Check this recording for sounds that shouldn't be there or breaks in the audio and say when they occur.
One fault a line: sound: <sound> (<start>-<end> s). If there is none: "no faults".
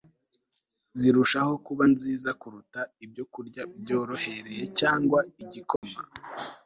sound: dropout (5.8-5.8 s)